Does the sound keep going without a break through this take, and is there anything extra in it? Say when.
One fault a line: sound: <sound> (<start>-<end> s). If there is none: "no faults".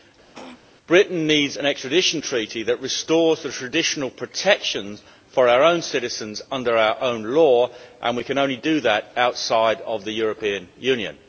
sound: throat clearing (0.3-0.6 s)